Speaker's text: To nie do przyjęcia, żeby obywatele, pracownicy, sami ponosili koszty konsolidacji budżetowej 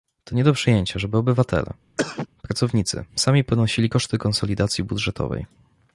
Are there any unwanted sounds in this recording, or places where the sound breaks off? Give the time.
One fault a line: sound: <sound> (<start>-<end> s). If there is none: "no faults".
sound: cough (2.0-2.3 s)